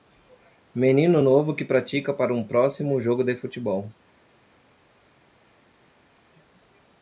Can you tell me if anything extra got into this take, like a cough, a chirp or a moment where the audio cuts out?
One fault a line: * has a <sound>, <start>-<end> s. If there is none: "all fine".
all fine